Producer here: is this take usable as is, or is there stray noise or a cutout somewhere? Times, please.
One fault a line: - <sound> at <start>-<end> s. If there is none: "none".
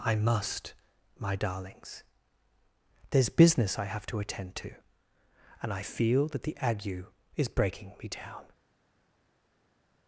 none